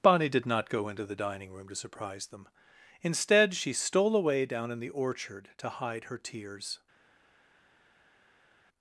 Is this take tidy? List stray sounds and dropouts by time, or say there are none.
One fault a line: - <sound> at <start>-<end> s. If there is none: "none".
none